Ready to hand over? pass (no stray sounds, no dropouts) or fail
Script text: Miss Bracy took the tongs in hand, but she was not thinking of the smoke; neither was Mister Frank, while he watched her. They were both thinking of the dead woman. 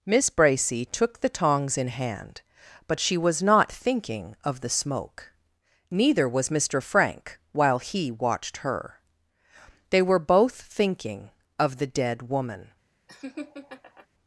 fail